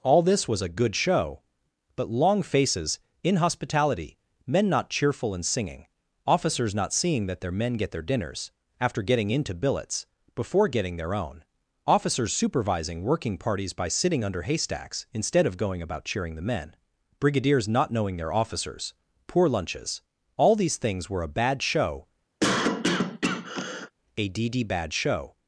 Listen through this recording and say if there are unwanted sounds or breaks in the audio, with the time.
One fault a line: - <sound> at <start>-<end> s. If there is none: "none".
- cough at 22.4-23.9 s